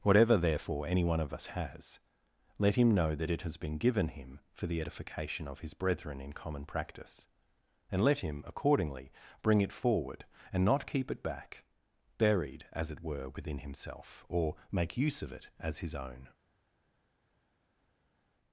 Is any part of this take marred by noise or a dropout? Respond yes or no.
no